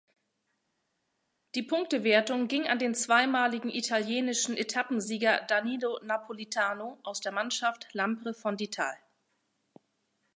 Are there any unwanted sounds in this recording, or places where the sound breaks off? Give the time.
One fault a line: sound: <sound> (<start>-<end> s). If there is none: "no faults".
no faults